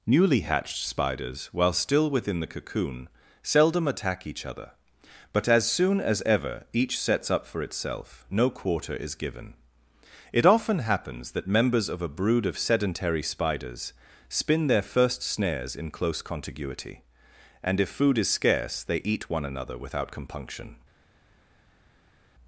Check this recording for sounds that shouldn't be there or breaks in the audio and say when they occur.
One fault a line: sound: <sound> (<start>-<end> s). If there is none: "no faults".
no faults